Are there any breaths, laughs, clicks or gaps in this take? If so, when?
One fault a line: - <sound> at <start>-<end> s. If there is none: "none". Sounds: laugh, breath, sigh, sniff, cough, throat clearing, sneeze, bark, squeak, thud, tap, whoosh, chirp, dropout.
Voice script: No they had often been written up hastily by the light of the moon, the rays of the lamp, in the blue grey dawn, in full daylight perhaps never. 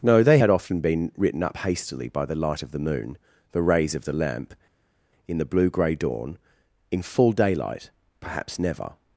none